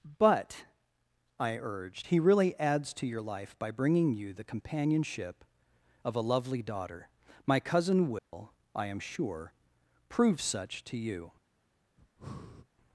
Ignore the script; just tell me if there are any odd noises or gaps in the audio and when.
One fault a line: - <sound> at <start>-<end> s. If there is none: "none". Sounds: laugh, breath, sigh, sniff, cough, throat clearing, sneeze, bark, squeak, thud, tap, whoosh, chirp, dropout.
- dropout at 8.2-8.3 s
- breath at 12.0-12.7 s